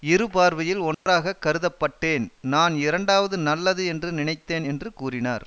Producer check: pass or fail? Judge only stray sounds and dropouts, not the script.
fail